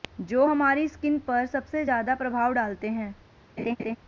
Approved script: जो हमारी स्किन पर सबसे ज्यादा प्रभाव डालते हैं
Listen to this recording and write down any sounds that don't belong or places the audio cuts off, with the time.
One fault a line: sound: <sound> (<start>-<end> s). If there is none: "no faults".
sound: laugh (3.6-4.0 s)